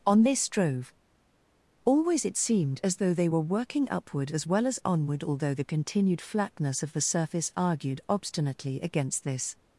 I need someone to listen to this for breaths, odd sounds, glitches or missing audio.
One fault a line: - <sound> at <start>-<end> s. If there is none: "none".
none